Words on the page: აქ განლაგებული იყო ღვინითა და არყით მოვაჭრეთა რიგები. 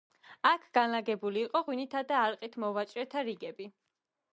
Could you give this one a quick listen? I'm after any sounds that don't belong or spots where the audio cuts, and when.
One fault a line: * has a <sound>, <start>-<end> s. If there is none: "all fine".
all fine